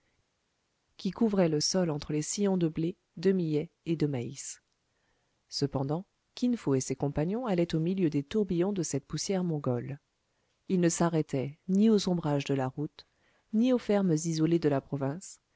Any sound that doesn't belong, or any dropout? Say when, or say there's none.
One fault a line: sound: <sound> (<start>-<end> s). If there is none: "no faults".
no faults